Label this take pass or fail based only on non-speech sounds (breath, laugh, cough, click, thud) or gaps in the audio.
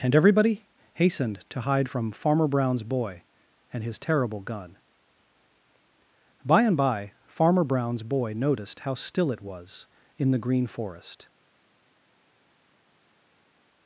pass